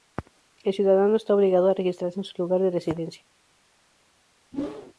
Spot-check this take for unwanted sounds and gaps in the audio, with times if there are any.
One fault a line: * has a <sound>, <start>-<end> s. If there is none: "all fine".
* has a whoosh, 4.5-4.9 s